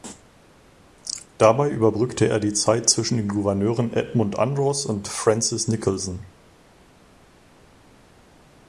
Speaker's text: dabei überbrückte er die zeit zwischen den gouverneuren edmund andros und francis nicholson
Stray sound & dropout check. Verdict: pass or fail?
pass